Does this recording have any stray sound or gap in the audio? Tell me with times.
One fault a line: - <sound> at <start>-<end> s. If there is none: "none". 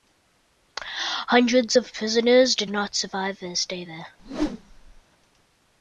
- whoosh at 4.2-5.0 s